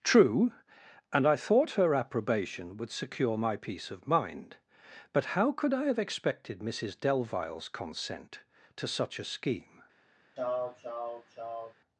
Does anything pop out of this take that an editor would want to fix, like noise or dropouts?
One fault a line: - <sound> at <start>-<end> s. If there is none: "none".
- sneeze at 10.4-11.7 s